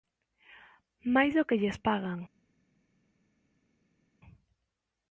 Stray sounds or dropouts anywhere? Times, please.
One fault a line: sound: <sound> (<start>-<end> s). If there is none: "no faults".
no faults